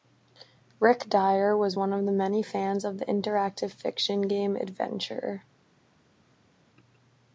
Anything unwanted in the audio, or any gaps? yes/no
no